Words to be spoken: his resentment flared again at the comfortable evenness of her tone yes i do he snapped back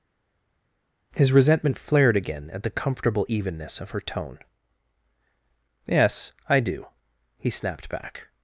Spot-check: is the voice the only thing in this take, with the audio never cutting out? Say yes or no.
yes